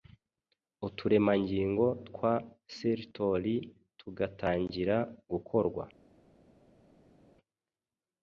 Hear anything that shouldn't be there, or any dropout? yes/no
no